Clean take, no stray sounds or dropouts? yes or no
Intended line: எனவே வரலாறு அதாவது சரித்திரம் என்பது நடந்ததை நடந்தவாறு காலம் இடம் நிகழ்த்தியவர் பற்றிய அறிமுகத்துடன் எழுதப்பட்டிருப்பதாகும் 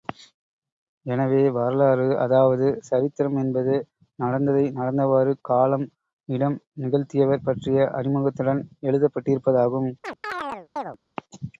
no